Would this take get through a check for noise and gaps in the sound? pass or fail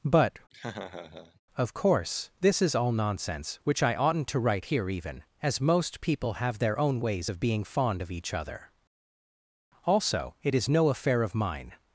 fail